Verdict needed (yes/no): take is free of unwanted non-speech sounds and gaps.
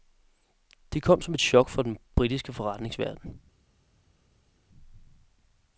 yes